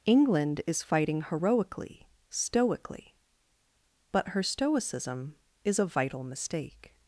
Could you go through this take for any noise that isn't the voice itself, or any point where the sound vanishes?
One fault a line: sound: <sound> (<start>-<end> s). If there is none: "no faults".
no faults